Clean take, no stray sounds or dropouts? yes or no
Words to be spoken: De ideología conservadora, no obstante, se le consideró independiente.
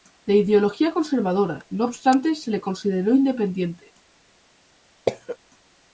no